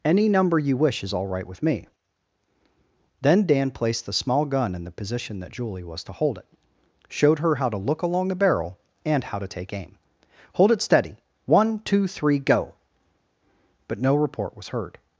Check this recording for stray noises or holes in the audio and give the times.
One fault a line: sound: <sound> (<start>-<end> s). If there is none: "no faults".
no faults